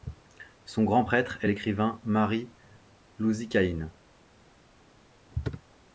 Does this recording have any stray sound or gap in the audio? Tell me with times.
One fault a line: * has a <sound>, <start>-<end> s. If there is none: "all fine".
all fine